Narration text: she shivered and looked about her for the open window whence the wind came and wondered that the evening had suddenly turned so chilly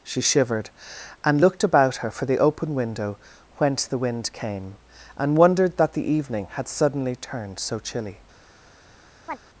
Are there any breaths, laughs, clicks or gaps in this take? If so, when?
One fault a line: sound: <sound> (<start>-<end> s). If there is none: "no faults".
sound: chirp (9.3-9.4 s)